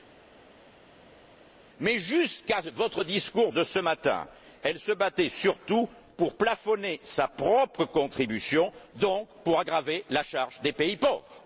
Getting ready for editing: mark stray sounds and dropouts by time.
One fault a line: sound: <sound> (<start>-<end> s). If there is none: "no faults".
no faults